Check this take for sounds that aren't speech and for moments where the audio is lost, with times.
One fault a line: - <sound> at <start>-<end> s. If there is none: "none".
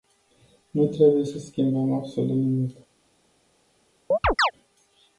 - chirp at 4.1-4.5 s